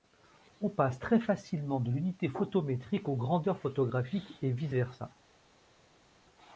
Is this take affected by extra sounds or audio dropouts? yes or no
no